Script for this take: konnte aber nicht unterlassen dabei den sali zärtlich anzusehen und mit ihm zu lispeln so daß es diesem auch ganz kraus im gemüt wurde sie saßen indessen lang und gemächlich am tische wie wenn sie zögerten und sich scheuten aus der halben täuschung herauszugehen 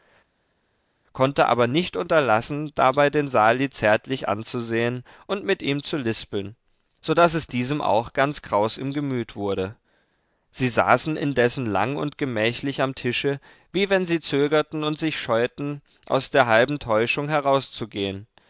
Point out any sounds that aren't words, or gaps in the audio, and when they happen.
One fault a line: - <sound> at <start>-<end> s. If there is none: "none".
none